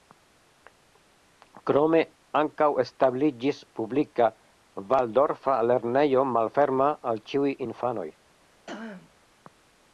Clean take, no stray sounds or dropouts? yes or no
no